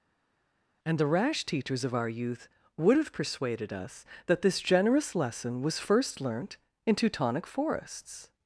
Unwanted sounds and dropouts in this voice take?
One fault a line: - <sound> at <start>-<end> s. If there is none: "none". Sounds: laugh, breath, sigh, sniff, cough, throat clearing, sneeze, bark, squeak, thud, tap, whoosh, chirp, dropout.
none